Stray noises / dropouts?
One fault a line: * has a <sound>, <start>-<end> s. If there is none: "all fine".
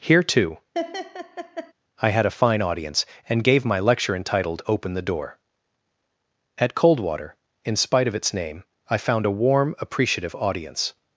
* has a laugh, 0.7-1.7 s